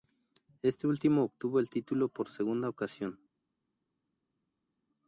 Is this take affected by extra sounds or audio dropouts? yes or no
no